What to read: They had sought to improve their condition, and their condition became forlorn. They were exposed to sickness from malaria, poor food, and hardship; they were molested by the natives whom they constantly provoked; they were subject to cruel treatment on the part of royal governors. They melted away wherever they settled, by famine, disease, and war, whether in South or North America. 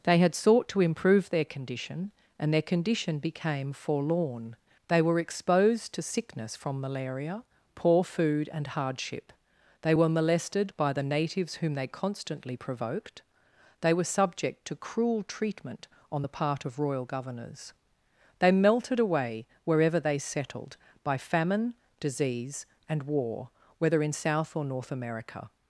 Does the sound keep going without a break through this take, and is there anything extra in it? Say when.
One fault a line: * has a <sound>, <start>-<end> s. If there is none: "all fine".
all fine